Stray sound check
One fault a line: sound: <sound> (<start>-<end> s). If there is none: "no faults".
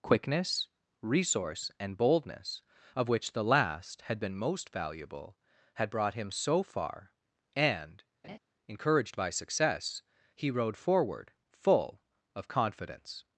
sound: laugh (8.2-8.4 s)